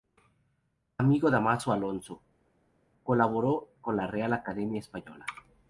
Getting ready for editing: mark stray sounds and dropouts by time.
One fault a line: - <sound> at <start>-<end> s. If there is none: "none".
none